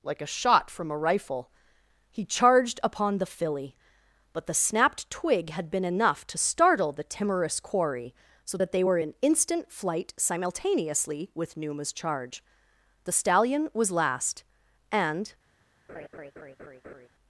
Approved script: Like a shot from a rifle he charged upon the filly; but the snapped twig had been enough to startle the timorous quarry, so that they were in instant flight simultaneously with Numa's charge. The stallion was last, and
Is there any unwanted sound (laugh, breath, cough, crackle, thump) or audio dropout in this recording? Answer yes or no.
yes